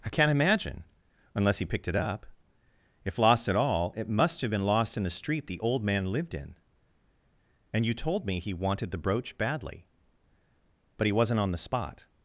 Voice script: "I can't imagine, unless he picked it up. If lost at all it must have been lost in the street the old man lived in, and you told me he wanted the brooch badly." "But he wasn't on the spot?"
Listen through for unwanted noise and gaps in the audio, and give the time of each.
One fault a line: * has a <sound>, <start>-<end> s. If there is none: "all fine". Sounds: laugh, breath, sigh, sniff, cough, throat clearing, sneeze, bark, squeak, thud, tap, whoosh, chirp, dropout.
all fine